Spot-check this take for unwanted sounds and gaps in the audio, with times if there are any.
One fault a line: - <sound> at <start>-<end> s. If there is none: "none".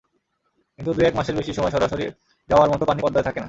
none